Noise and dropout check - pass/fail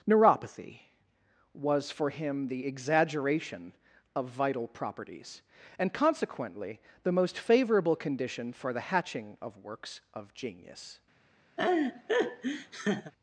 fail